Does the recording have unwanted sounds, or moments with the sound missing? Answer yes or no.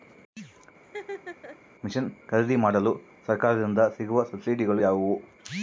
yes